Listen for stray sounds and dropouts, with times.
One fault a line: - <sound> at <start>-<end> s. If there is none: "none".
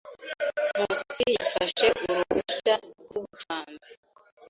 - dropout at 3.1-3.2 s